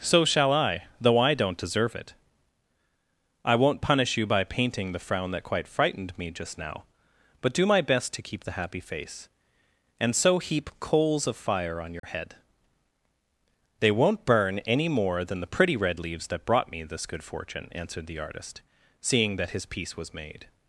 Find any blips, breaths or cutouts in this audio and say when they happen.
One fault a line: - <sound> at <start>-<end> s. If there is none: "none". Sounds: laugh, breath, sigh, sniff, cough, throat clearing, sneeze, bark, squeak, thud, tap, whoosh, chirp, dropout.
- dropout at 12.0-12.0 s